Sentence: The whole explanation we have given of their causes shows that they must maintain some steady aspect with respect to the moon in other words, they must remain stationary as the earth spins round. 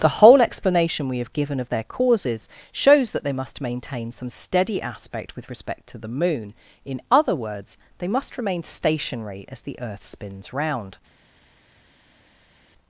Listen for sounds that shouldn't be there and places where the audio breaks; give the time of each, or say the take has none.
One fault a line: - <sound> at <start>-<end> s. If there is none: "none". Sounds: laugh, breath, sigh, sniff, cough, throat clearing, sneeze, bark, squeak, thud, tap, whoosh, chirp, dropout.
none